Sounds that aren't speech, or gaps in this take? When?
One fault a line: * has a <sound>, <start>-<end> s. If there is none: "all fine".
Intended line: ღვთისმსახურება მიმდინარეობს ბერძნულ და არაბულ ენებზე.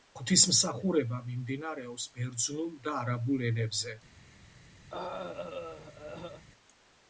* has a throat clearing, 4.9-6.4 s